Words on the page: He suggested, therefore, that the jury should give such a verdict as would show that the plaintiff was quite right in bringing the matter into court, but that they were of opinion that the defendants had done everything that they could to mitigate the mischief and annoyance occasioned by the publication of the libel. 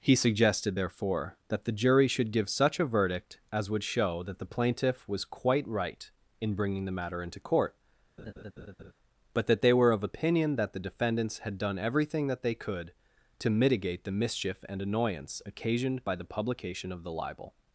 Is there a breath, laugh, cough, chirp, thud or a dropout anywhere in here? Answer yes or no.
yes